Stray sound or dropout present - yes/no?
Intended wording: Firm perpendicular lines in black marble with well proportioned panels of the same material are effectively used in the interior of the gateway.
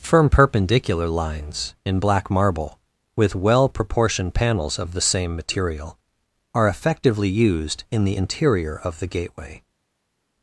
no